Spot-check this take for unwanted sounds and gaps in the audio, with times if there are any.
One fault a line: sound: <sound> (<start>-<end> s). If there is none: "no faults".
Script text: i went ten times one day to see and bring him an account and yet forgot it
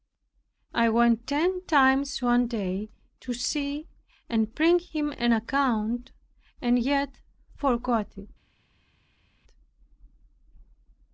no faults